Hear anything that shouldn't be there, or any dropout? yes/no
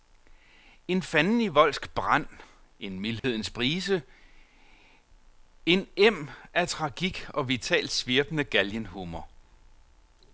yes